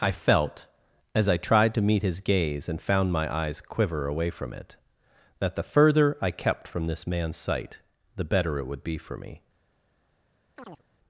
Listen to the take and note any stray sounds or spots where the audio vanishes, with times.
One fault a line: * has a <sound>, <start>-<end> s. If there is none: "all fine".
* has a chirp, 10.6-10.8 s